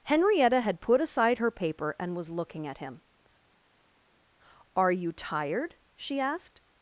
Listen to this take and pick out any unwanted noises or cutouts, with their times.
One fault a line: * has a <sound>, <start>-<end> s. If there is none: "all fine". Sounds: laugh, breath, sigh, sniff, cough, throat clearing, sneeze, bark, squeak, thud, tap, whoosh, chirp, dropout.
all fine